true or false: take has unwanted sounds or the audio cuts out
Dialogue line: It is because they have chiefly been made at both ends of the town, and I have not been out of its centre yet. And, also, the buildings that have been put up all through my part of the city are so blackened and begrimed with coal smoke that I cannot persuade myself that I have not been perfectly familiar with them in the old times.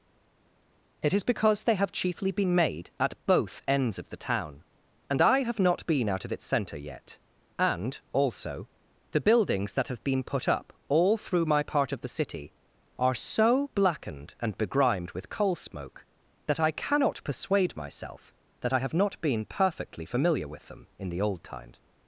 false